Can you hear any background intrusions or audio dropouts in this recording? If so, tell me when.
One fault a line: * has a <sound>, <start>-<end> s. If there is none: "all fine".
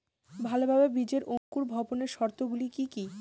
* has a dropout, 1.4-1.5 s